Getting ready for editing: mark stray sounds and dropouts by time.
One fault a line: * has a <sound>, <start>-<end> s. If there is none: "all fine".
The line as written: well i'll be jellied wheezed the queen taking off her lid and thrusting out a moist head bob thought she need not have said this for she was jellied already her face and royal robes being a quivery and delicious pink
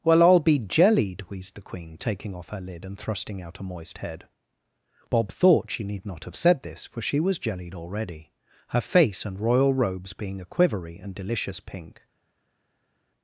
all fine